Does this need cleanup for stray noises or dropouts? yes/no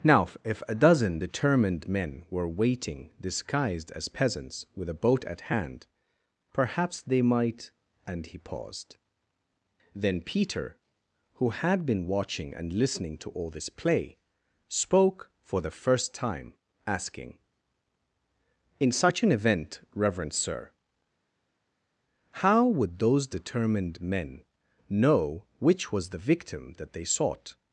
no